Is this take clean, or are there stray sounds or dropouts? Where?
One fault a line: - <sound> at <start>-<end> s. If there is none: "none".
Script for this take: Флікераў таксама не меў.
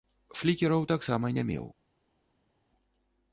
none